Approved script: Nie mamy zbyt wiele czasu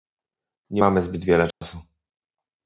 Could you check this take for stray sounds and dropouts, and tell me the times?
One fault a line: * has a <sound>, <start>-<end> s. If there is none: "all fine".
* has a dropout, 1.5-1.6 s